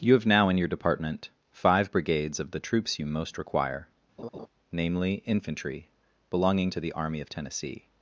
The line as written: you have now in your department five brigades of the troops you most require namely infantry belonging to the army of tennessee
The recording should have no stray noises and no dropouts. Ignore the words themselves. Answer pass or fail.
fail